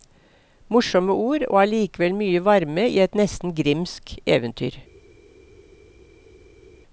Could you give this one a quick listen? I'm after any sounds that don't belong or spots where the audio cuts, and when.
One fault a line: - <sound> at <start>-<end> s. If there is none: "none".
none